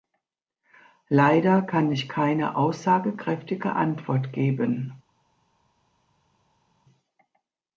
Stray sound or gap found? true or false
false